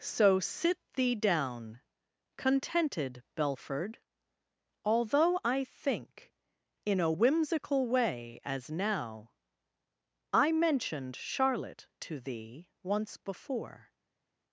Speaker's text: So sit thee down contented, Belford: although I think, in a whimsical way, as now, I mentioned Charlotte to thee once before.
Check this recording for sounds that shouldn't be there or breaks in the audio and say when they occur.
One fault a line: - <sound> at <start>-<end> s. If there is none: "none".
none